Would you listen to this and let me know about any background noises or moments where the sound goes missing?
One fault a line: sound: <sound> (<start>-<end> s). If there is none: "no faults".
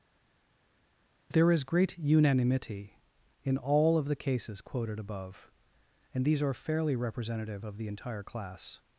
no faults